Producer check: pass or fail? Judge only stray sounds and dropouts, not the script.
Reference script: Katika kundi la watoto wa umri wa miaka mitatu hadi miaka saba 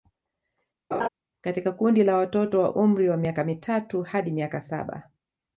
fail